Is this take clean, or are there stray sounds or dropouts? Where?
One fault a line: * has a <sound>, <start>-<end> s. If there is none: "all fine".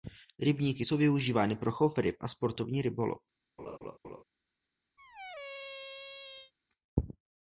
* has a laugh, 3.6-4.2 s
* has a squeak, 5.0-6.5 s